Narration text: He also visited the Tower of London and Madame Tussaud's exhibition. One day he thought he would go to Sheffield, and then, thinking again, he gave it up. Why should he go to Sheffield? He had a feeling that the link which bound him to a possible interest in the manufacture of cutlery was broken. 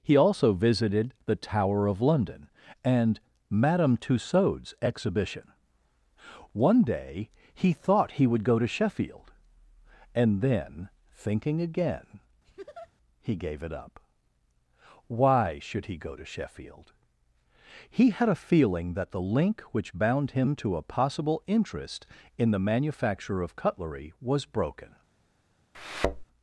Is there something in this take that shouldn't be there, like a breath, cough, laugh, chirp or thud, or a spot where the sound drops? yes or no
yes